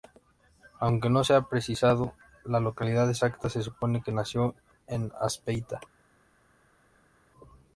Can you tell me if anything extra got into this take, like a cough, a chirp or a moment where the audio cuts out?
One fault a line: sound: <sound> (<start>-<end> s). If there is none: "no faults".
no faults